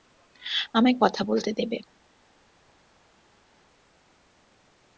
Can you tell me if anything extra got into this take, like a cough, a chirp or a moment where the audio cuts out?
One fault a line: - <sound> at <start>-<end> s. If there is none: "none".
none